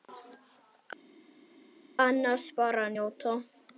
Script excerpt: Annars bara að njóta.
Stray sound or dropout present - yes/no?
no